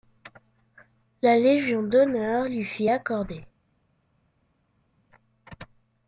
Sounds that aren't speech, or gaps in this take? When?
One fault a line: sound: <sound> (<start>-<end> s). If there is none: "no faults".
no faults